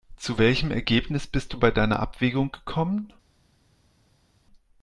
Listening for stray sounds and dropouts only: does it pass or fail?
pass